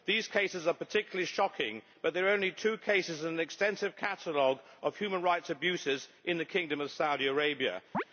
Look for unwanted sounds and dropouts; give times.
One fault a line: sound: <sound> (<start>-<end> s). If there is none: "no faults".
sound: chirp (7.9-8.0 s)